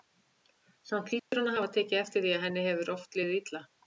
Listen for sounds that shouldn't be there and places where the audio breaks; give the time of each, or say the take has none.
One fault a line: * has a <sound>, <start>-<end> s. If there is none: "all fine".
* has a dropout, 1.2-1.3 s